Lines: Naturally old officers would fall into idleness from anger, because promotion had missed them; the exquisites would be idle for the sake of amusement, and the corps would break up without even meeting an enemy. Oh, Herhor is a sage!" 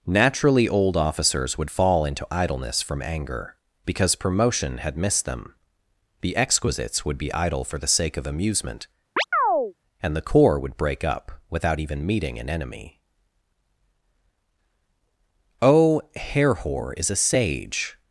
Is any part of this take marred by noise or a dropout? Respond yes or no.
yes